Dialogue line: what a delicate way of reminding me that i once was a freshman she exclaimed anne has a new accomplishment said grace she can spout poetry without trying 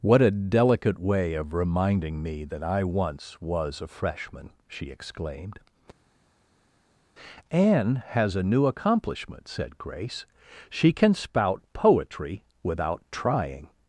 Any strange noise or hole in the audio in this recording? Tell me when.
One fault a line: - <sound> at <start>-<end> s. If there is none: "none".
none